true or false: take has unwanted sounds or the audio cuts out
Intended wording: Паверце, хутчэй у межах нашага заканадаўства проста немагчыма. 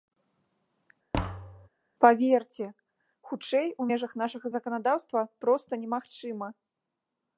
true